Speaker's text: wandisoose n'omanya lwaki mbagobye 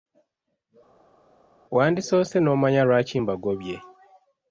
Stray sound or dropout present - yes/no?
no